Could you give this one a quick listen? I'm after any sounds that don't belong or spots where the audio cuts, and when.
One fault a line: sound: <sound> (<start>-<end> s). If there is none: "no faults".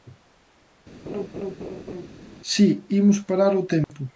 sound: laugh (1.1-2.1 s)
sound: dropout (3.8-3.9 s)